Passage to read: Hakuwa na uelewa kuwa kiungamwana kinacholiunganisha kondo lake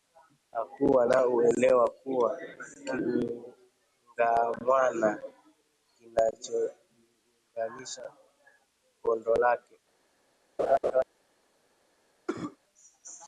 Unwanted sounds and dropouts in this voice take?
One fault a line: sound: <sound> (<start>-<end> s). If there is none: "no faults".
sound: laugh (10.6-11.0 s)
sound: cough (12.3-12.6 s)